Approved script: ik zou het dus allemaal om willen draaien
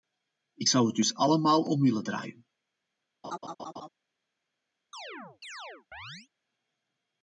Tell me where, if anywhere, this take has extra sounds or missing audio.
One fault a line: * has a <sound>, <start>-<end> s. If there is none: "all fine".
* has a laugh, 3.2-3.9 s
* has a chirp, 4.9-6.3 s